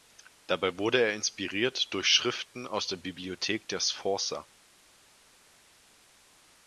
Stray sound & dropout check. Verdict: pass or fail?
pass